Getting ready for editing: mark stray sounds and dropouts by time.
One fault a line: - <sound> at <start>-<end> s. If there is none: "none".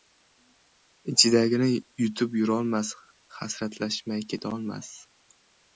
none